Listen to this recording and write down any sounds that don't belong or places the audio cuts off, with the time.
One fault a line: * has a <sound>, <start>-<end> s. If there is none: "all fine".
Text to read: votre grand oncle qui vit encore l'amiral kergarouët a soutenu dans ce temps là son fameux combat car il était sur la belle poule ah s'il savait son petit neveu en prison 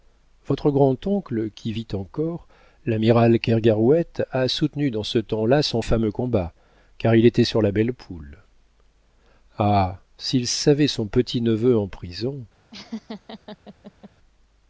* has a laugh, 12.7-14.1 s